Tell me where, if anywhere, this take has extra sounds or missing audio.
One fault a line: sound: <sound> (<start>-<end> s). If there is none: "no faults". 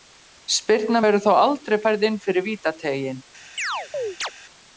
sound: chirp (3.6-4.3 s)